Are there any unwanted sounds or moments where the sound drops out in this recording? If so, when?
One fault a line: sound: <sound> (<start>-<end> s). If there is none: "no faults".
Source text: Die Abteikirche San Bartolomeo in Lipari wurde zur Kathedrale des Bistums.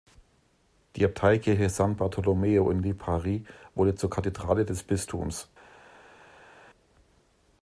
no faults